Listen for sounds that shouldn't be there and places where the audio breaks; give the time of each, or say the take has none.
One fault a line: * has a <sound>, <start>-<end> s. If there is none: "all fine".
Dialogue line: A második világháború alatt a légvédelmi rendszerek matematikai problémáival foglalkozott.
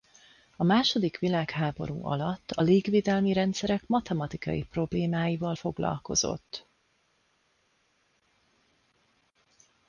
all fine